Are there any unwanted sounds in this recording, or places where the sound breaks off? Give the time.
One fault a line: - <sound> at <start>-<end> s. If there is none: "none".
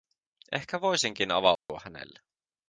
- dropout at 1.6-1.7 s